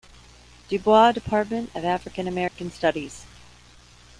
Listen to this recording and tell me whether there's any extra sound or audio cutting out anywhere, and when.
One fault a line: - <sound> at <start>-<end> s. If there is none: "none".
- dropout at 2.5-2.5 s